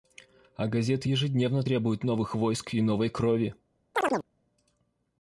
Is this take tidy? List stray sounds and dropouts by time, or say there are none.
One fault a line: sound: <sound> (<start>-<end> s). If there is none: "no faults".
sound: chirp (3.9-4.3 s)